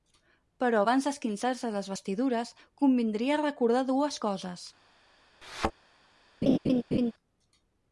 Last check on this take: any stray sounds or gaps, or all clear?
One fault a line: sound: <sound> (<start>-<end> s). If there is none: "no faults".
sound: thud (5.4-5.7 s)
sound: laugh (6.4-7.1 s)